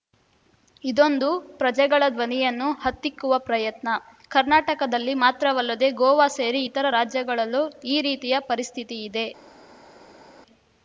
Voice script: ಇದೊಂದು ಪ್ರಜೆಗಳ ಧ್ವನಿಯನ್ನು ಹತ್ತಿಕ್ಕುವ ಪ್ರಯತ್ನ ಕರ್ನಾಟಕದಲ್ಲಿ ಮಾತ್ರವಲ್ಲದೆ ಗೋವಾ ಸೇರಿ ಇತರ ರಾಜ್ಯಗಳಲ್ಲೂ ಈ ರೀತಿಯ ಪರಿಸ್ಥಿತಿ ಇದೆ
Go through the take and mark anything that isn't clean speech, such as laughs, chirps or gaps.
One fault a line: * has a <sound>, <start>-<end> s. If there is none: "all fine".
all fine